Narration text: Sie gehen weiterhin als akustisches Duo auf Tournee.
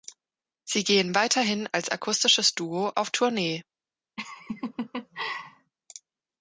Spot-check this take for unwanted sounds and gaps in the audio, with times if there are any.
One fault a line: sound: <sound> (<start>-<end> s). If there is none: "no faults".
sound: laugh (4.2-5.7 s)